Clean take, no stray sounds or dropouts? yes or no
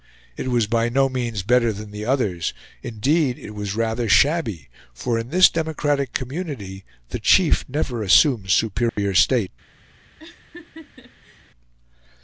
no